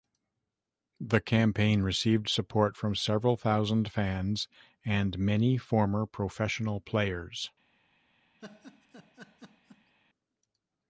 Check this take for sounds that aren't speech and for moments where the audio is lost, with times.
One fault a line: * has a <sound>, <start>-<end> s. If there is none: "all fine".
* has a laugh, 8.4-9.9 s